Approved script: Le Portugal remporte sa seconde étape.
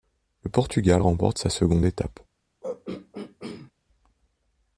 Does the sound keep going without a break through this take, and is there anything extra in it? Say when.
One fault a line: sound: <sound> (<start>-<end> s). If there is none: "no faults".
sound: throat clearing (2.6-3.7 s)